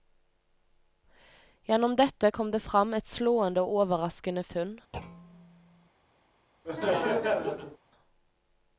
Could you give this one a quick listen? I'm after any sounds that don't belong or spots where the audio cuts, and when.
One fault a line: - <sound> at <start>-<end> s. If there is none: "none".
- thud at 4.9-5.9 s
- laugh at 6.6-7.8 s